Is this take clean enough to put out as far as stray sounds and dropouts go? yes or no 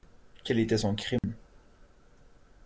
no